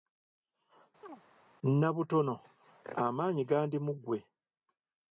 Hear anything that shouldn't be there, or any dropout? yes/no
yes